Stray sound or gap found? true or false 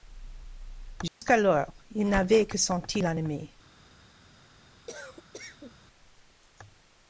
true